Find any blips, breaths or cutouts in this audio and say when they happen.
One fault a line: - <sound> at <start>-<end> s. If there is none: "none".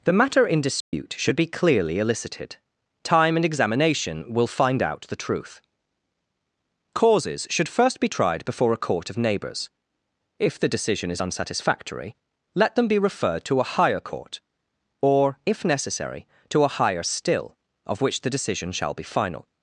- dropout at 0.8-0.9 s